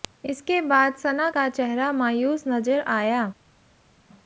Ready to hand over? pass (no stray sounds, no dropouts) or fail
pass